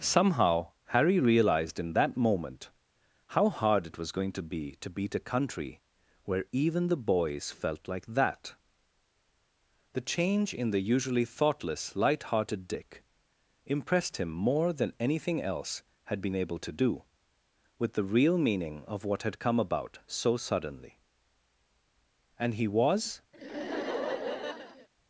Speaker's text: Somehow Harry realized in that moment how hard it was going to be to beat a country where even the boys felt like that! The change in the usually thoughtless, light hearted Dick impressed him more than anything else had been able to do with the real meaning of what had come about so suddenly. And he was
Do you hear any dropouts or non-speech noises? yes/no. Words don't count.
yes